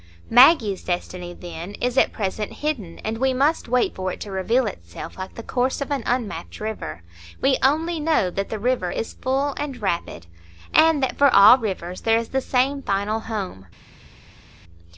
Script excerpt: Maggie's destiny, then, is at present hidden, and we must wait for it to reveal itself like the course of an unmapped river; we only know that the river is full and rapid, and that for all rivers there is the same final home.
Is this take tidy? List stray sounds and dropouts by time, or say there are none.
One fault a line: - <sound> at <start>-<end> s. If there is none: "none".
none